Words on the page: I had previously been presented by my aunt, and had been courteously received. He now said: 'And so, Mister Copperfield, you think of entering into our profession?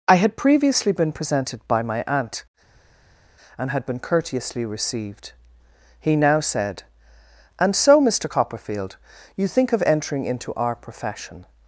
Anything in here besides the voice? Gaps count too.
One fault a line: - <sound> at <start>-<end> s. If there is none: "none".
none